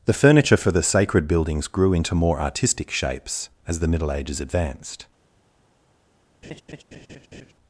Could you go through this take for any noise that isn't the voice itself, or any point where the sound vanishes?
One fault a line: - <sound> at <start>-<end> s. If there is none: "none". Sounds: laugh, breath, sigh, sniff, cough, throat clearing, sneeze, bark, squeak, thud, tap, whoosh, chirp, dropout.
- laugh at 6.4-7.5 s